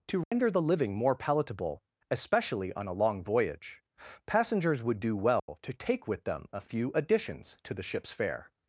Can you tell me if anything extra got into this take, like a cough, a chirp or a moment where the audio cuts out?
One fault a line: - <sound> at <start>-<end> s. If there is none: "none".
- dropout at 0.2-0.3 s
- dropout at 5.4-5.5 s